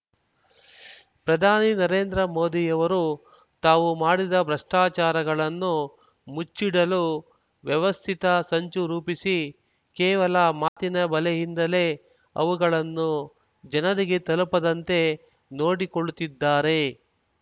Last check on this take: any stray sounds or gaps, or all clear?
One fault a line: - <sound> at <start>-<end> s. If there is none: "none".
- dropout at 10.7-10.8 s